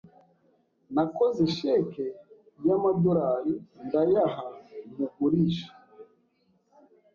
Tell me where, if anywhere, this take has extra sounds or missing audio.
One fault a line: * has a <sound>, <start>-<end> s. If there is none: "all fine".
all fine